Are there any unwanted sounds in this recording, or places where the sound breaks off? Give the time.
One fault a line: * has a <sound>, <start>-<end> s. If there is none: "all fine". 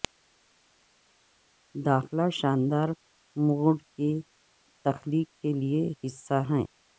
all fine